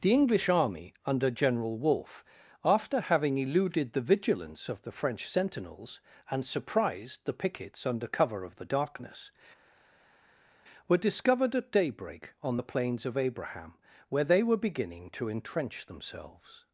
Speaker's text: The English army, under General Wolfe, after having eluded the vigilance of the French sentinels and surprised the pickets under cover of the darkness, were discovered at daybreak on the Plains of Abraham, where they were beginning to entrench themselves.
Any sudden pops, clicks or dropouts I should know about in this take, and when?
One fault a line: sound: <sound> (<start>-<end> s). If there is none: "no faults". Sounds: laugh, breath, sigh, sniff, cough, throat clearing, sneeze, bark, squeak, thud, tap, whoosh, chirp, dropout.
no faults